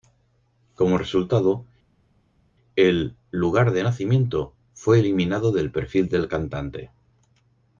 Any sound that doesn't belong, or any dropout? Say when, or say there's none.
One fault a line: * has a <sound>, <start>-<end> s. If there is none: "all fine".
all fine